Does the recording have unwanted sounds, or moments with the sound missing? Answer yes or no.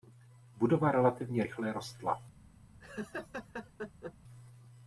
yes